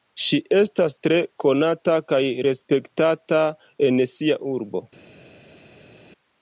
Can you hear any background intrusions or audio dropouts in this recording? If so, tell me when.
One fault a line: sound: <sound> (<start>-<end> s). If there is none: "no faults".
no faults